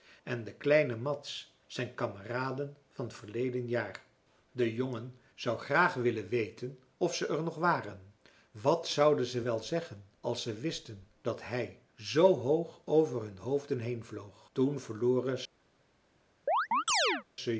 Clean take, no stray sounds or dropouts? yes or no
no